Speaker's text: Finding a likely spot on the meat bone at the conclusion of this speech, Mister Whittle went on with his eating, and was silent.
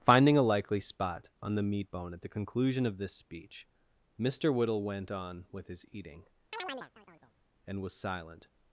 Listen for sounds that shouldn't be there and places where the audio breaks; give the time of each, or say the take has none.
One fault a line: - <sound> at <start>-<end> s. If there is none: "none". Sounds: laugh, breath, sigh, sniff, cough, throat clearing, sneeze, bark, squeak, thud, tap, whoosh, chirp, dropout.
- chirp at 6.5-7.4 s